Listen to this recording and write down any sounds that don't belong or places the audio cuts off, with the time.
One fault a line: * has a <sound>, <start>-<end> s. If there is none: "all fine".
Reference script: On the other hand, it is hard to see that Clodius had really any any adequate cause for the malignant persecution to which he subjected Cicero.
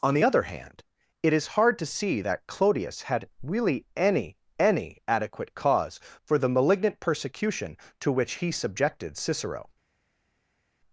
all fine